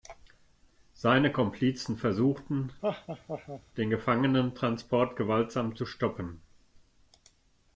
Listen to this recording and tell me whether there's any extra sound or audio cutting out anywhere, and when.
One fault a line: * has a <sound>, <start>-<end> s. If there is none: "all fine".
* has a laugh, 2.8-3.6 s